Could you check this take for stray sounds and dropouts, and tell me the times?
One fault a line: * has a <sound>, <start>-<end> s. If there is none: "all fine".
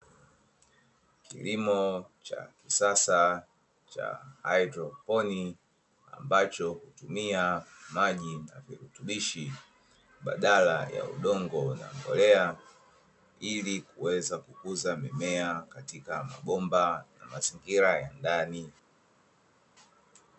all fine